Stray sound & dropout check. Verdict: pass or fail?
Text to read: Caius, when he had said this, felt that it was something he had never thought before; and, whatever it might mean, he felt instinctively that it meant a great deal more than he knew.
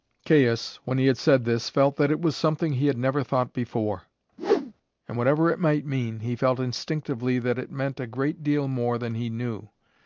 fail